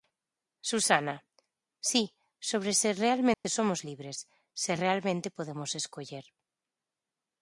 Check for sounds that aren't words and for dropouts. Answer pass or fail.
fail